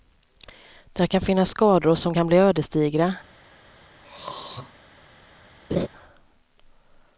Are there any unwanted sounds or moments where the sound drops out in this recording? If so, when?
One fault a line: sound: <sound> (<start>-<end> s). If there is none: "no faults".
sound: throat clearing (4.0-4.7 s)
sound: laugh (5.7-5.9 s)